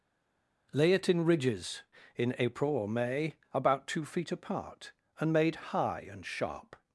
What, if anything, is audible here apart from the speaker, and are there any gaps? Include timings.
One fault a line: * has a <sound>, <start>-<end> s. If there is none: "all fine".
all fine